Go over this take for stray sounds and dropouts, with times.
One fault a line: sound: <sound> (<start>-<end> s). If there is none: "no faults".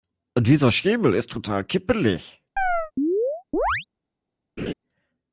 sound: chirp (2.6-3.9 s)
sound: laugh (4.6-4.7 s)